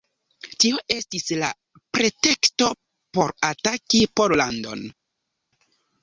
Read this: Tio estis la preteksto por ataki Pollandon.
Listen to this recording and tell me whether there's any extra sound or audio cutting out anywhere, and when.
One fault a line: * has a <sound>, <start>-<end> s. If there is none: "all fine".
all fine